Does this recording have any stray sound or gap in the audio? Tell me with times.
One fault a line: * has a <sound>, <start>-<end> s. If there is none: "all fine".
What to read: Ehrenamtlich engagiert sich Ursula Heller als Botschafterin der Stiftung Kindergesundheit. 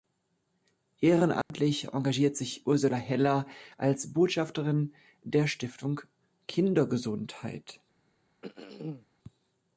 * has a dropout, 1.4-1.5 s
* has a throat clearing, 8.4-9.1 s